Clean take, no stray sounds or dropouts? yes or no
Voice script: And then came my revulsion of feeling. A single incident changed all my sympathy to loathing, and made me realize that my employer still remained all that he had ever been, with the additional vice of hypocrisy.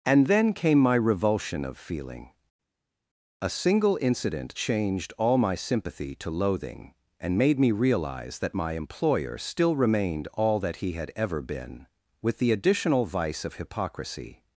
yes